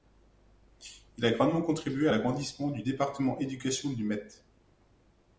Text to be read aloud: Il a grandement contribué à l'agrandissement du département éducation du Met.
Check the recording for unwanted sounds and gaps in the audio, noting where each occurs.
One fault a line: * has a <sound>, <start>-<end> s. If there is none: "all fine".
all fine